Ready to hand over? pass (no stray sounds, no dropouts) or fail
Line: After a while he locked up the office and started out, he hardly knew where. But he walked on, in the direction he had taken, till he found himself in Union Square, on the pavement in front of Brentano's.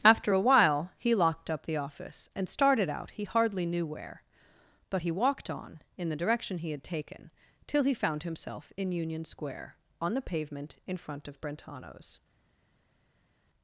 pass